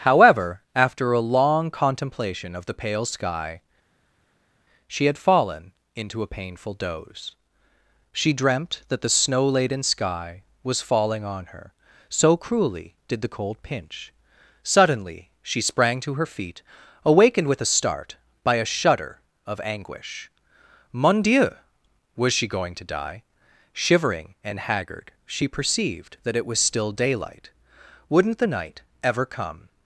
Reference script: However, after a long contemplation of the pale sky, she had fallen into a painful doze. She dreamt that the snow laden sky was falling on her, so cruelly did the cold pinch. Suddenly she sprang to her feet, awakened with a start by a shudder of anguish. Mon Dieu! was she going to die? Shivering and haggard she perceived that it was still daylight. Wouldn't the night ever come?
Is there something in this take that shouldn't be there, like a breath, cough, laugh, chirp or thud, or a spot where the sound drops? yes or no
no